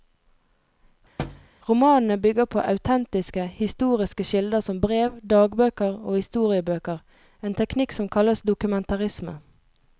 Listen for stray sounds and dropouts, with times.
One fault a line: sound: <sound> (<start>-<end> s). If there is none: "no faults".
sound: thud (1.2-1.5 s)